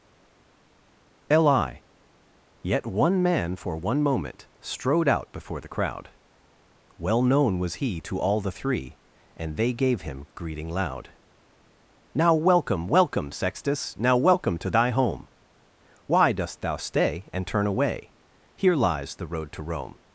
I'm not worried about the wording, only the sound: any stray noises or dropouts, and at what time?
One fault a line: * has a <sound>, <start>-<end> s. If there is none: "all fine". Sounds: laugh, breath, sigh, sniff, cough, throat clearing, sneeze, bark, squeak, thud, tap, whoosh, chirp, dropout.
all fine